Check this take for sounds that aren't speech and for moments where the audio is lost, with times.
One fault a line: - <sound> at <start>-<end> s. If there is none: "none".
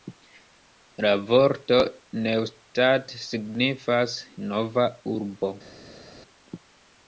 none